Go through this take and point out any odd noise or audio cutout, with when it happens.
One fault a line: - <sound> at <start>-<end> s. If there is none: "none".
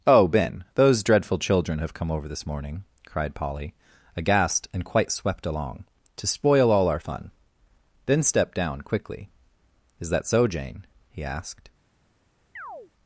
- chirp at 12.6-12.9 s